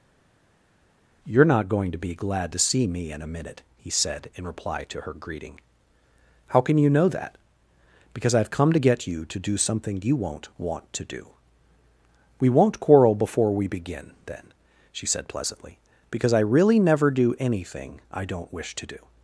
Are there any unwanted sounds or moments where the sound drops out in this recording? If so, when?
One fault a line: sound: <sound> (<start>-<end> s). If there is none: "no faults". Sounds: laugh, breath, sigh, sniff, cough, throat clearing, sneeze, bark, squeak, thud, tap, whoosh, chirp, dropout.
no faults